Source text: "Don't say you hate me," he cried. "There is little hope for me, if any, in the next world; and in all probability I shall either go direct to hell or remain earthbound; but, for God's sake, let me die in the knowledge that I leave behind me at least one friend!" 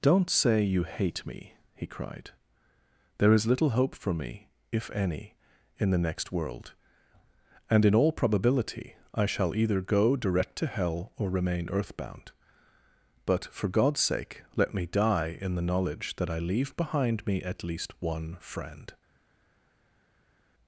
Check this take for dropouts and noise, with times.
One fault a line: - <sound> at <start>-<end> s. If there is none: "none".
none